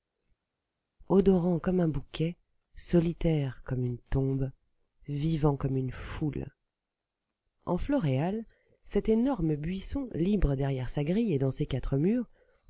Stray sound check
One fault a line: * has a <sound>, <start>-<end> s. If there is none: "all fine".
all fine